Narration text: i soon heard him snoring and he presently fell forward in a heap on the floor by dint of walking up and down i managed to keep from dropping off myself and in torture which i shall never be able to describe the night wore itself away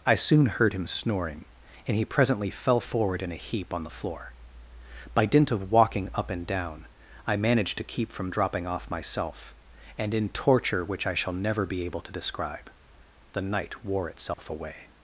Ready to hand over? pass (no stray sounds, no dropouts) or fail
fail